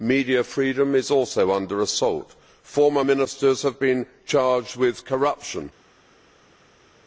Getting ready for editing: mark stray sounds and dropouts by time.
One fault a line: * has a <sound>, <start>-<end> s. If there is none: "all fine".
all fine